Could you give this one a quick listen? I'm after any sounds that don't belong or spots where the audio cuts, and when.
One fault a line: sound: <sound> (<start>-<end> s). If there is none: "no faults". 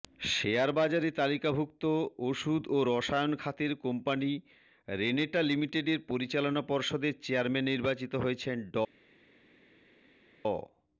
no faults